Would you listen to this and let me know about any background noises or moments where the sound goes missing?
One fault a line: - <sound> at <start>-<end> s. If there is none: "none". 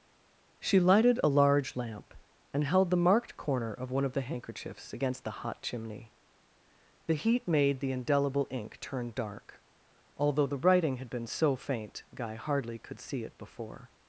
none